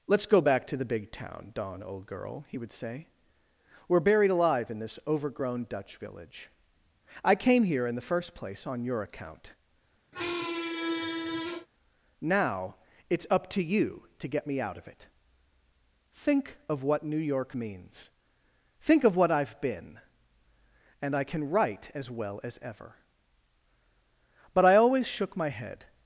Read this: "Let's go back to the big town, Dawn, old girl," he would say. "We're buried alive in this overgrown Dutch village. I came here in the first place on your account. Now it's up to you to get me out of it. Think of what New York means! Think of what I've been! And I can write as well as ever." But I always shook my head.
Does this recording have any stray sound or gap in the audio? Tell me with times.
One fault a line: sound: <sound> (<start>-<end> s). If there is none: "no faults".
sound: squeak (10.1-11.7 s)